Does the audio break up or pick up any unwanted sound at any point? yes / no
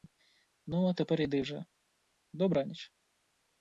no